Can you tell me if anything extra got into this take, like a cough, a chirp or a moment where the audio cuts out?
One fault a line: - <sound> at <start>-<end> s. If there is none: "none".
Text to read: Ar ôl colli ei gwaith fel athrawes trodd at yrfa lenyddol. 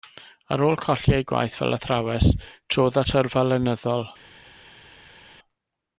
none